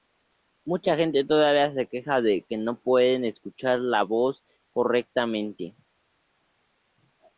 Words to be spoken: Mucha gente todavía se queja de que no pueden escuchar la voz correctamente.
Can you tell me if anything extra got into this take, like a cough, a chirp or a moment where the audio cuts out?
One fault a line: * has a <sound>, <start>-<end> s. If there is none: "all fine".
all fine